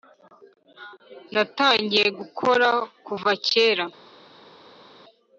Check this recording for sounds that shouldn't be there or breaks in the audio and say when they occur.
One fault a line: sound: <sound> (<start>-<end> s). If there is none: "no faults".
no faults